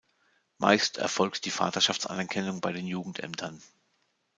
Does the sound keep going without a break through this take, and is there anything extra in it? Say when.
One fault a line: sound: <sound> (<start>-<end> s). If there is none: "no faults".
no faults